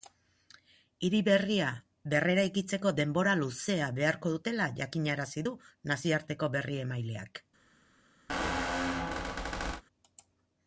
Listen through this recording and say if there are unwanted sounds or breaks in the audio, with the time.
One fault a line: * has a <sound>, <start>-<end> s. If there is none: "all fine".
* has a squeak, 8.3-9.8 s